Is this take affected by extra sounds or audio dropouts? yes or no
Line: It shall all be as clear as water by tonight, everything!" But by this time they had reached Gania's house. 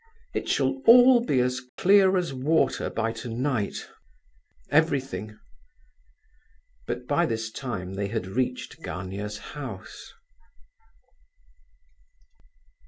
yes